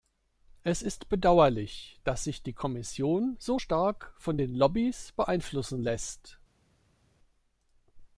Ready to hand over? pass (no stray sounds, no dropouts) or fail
pass